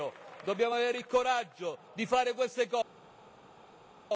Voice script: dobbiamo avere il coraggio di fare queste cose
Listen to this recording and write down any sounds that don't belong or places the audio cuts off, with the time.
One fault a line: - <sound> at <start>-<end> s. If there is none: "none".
none